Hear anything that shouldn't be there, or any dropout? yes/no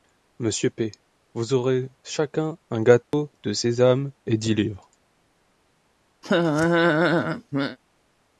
yes